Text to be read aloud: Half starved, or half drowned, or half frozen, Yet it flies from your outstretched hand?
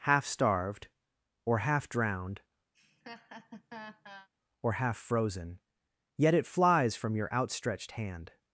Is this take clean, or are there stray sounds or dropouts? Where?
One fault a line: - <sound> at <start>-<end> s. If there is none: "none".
- laugh at 2.7-4.3 s